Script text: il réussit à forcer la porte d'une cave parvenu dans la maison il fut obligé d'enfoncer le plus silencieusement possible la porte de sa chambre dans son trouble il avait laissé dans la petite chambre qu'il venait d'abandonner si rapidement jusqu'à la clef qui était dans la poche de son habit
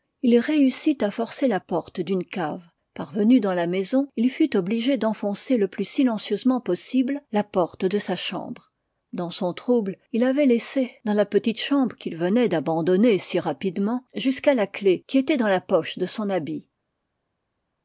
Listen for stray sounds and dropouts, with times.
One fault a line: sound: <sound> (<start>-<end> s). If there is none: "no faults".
no faults